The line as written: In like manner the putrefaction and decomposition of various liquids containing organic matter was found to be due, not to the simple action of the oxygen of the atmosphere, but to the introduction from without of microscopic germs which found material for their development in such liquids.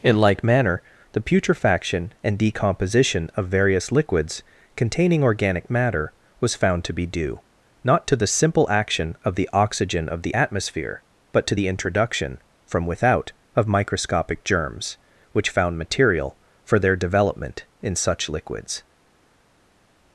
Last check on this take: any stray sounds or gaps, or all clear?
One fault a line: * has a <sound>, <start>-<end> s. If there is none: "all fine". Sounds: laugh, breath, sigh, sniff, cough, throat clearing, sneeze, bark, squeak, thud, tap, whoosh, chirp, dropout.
all fine